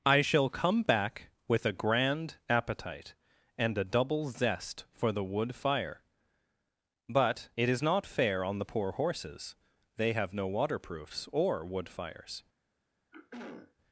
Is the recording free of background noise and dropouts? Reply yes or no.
no